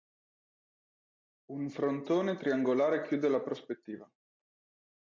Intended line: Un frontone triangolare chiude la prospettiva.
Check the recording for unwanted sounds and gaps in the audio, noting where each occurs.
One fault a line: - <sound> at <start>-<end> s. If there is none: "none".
none